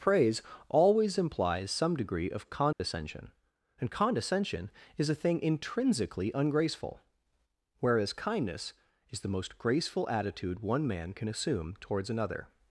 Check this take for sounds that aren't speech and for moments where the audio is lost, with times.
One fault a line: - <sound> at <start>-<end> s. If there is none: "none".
- dropout at 2.7-2.8 s